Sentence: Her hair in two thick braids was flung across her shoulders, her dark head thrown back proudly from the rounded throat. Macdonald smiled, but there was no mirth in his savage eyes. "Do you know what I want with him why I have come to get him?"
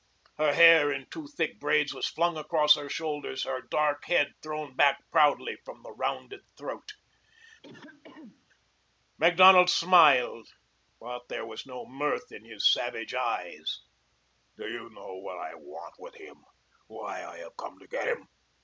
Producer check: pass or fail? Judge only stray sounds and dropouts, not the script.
fail